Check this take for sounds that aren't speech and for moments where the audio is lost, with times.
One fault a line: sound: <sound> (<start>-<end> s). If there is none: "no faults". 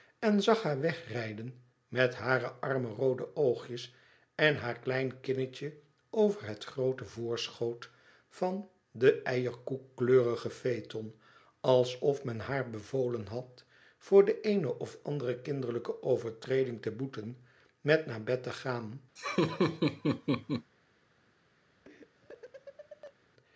sound: laugh (19.2-20.7 s)
sound: laugh (21.8-23.1 s)